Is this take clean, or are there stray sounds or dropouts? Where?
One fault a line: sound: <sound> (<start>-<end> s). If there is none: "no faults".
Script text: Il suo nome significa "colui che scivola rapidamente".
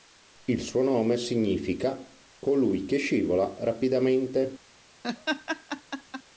sound: laugh (5.0-6.2 s)